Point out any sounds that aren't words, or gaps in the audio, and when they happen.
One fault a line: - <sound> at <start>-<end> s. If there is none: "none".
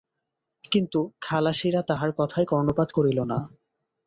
none